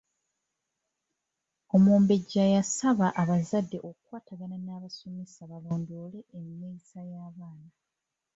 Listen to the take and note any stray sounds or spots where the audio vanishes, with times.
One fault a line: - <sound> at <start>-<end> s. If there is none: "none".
none